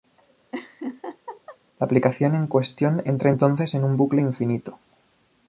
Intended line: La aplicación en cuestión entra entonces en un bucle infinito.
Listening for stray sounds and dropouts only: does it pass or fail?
fail